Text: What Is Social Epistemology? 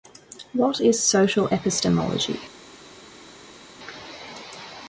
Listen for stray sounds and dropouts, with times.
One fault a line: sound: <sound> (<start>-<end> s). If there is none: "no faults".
no faults